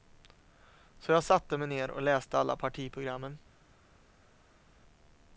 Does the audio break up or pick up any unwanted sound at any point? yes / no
no